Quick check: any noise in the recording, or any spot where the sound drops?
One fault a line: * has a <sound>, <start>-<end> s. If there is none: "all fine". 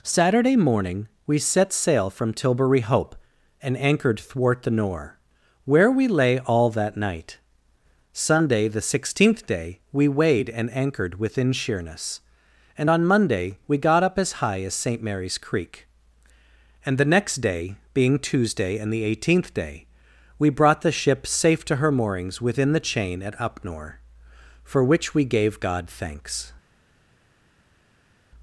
all fine